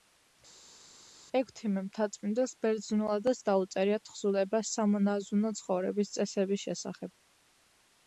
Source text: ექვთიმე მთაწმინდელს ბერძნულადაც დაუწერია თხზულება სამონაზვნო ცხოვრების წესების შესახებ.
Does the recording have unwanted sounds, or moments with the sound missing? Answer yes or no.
no